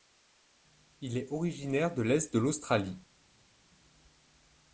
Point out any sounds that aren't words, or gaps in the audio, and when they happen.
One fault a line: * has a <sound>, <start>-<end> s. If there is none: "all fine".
all fine